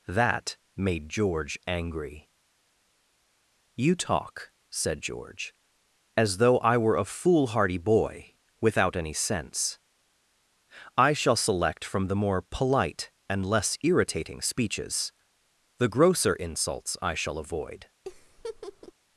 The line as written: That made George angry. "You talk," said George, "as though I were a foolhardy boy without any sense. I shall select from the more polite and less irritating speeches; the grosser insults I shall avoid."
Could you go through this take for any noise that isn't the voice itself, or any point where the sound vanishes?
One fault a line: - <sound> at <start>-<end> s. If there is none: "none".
- laugh at 18.0-18.9 s